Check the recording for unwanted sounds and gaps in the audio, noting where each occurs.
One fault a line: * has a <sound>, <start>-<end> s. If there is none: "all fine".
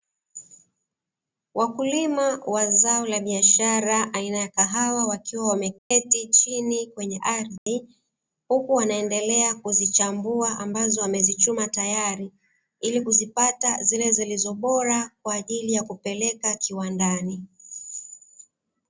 * has a dropout, 5.8-5.9 s
* has a dropout, 7.6-7.7 s